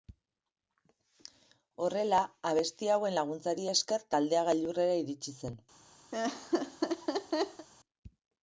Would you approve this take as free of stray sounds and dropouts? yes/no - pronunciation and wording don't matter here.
no